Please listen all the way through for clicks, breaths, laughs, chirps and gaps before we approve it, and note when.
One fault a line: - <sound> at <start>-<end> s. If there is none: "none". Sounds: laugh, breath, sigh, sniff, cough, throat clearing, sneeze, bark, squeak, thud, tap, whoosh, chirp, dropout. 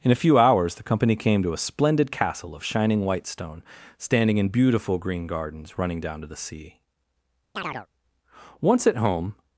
- chirp at 7.6-7.9 s